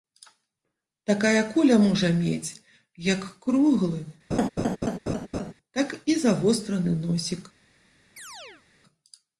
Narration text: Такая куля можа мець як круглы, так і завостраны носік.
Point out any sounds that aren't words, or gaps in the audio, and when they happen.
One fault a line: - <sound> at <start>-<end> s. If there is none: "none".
- laugh at 4.3-5.5 s
- chirp at 8.2-8.6 s